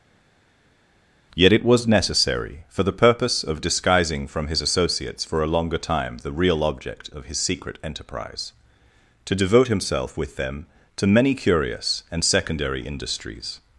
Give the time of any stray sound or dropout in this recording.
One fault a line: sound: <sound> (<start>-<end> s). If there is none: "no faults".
no faults